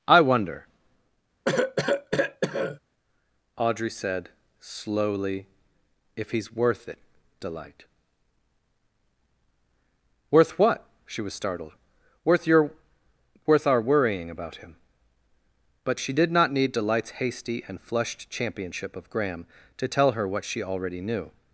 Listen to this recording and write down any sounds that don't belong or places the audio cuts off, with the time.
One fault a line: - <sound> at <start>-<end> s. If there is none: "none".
- cough at 1.4-2.8 s